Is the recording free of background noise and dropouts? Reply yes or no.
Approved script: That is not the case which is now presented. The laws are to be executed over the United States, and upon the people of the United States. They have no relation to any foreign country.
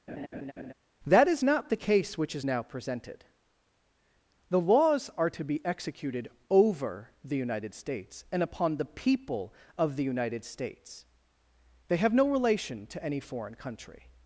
no